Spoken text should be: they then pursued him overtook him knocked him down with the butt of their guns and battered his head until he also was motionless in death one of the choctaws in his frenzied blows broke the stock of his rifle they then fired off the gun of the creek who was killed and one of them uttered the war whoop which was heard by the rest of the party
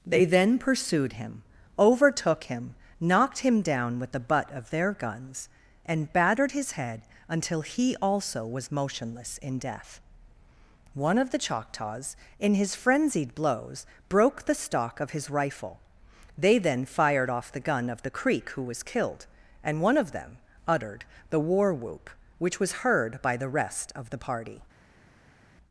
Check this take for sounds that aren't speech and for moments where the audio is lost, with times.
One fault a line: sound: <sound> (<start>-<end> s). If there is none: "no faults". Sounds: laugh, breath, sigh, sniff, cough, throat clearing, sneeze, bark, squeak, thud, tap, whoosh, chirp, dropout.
no faults